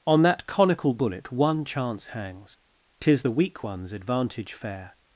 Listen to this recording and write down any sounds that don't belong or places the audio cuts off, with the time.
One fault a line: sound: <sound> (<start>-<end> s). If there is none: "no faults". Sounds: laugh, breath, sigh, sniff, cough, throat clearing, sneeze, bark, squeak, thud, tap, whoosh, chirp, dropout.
no faults